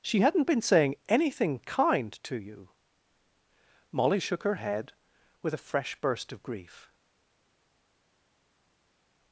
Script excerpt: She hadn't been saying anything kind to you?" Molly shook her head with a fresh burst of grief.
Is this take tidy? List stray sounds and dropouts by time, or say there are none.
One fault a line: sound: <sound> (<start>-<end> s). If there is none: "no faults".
no faults